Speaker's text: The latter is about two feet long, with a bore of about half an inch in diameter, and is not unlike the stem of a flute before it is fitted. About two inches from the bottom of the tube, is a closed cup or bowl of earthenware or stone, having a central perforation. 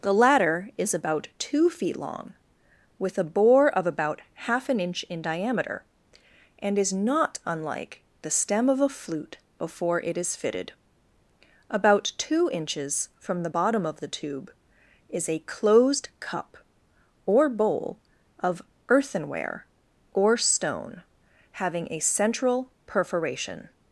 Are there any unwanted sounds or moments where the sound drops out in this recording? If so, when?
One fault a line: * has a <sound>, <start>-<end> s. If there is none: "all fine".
all fine